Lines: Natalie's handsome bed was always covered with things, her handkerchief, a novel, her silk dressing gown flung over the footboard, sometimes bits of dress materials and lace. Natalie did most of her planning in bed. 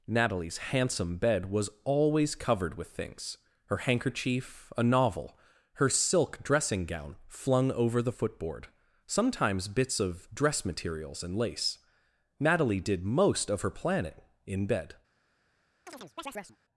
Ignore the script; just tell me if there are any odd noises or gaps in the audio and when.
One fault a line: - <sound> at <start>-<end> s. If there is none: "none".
- chirp at 15.9-16.6 s